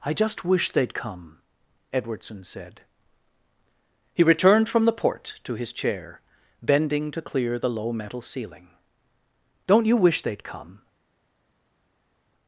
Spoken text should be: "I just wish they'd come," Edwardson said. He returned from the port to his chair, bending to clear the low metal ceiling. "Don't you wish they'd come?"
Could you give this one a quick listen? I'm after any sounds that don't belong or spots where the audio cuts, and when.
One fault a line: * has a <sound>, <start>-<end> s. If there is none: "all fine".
all fine